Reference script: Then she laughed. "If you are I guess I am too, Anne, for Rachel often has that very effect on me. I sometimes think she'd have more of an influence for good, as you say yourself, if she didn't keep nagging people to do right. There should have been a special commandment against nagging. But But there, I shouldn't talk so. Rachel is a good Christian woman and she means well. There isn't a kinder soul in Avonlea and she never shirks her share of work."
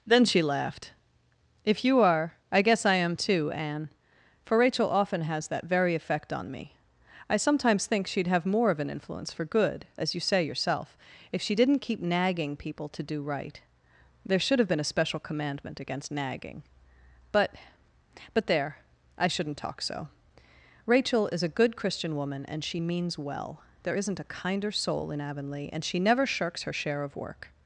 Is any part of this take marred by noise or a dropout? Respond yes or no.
no